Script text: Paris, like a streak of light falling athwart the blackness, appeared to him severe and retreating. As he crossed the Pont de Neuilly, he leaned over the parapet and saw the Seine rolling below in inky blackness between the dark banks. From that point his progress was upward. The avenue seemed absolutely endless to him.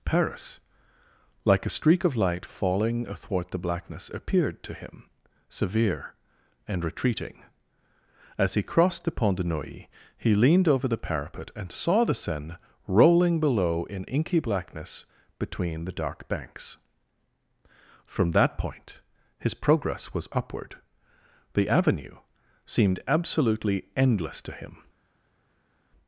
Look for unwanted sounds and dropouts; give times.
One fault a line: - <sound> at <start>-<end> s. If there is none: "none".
none